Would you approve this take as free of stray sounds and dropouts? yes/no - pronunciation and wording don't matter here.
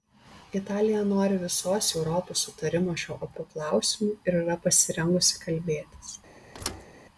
no